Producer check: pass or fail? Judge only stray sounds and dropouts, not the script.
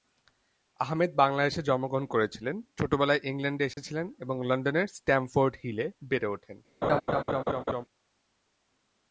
fail